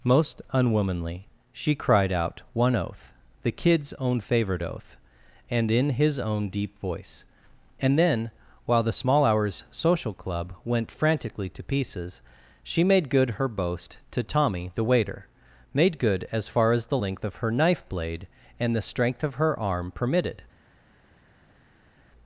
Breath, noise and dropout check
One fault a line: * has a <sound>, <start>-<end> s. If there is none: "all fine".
all fine